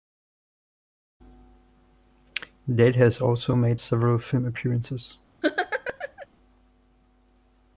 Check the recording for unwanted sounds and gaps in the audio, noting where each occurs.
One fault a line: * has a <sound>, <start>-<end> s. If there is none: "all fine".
* has a laugh, 5.4-6.3 s